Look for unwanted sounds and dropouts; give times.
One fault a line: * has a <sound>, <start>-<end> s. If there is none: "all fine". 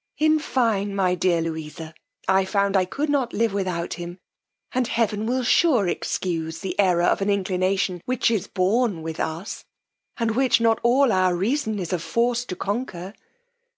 all fine